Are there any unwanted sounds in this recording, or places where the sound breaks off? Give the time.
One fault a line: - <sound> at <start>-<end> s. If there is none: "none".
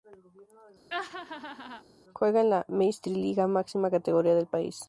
- laugh at 0.9-1.8 s